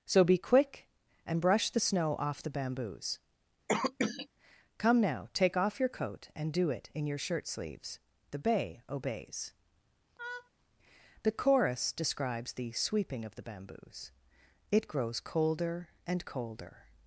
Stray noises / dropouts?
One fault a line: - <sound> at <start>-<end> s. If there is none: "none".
- cough at 3.7-4.3 s
- laugh at 10.2-10.5 s